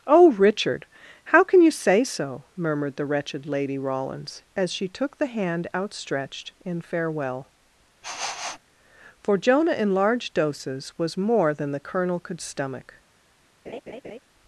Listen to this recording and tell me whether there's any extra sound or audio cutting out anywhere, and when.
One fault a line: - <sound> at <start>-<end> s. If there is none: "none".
- sniff at 8.0-8.6 s
- laugh at 13.7-14.2 s